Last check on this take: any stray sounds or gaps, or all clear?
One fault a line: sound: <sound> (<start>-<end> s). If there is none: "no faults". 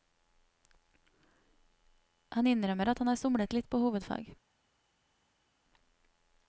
no faults